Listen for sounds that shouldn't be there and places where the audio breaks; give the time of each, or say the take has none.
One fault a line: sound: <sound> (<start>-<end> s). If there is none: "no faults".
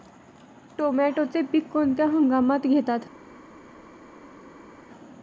no faults